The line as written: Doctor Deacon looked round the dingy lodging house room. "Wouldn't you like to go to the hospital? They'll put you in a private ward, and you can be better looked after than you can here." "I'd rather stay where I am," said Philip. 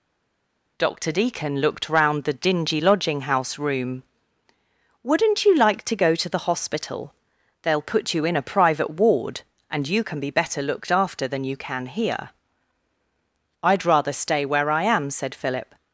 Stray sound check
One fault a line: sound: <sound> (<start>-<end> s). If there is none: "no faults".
no faults